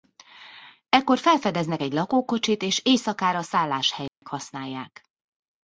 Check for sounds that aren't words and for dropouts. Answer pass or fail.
fail